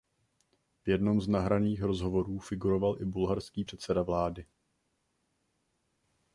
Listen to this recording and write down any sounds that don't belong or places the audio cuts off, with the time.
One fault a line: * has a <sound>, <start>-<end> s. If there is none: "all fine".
all fine